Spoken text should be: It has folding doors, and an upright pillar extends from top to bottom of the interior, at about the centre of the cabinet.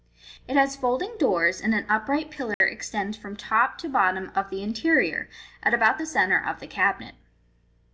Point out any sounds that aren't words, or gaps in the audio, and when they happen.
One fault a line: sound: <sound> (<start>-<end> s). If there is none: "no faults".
sound: dropout (2.5-2.6 s)